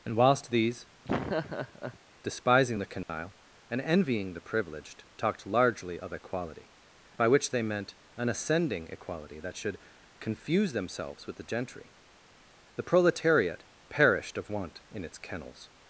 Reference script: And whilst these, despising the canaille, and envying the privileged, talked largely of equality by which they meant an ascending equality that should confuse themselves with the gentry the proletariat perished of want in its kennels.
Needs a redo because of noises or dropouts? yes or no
yes